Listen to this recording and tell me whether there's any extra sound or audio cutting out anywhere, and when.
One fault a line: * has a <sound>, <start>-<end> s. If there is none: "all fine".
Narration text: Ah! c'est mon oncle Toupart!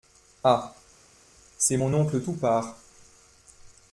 all fine